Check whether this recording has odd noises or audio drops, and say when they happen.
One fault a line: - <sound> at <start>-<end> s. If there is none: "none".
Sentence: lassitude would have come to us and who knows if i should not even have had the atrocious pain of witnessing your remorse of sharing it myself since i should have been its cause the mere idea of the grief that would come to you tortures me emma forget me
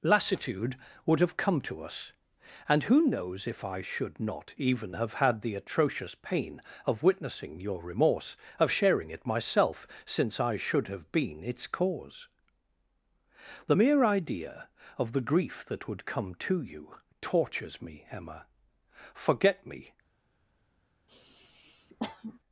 - sniff at 21.1-22.4 s